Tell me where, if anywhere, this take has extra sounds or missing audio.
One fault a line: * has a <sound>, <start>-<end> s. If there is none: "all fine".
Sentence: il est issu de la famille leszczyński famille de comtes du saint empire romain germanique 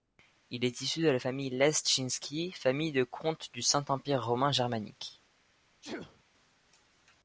* has a sneeze, 5.8-6.2 s